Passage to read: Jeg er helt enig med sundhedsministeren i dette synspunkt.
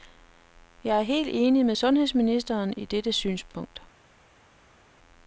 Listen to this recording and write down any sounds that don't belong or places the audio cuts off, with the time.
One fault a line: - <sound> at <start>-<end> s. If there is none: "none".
none